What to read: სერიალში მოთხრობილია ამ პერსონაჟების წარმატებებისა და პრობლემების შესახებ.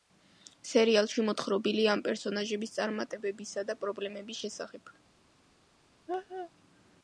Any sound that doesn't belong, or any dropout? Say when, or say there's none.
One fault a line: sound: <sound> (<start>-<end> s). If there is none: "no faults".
sound: laugh (6.1-6.5 s)